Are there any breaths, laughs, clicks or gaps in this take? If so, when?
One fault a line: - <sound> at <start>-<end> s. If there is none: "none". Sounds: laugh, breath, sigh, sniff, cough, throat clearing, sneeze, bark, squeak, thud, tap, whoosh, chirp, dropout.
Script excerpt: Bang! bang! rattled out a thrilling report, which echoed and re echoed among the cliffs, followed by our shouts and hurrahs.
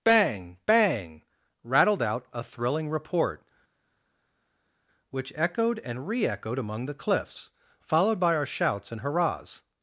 none